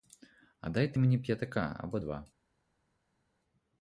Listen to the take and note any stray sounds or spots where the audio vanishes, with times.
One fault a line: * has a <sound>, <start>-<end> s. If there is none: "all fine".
all fine